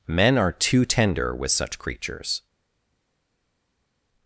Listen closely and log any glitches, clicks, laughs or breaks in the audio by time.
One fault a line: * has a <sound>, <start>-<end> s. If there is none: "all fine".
all fine